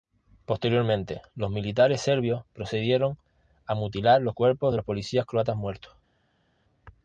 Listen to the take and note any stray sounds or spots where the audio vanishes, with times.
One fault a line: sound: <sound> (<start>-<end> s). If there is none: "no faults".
no faults